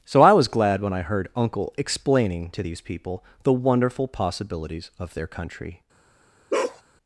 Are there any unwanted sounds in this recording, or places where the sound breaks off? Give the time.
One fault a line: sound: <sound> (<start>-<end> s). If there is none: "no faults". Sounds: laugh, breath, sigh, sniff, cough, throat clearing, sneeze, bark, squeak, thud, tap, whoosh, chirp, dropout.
sound: bark (6.5-6.8 s)